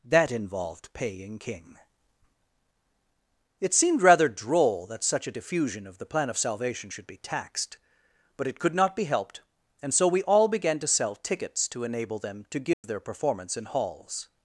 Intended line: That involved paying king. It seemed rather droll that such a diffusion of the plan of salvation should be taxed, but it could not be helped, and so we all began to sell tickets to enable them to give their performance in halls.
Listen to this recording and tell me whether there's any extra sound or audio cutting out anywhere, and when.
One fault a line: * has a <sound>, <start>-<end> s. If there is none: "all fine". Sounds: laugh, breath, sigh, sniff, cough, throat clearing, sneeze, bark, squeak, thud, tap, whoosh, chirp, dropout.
* has a dropout, 12.7-12.8 s